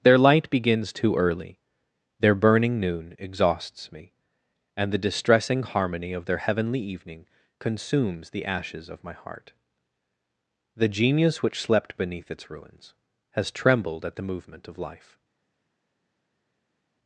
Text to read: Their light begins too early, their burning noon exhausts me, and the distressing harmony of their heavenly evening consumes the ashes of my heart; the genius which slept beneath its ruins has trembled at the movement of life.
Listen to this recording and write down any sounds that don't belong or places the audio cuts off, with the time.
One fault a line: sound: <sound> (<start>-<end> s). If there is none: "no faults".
no faults